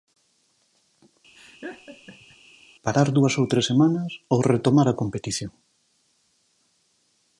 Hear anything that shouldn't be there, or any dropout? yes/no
yes